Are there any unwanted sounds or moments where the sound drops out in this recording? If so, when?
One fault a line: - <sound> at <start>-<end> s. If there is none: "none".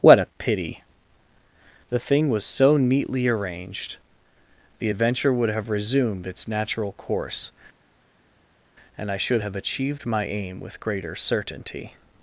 none